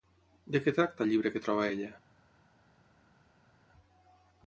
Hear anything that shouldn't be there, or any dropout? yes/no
no